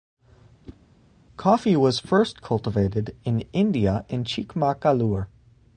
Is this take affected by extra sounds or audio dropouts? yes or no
yes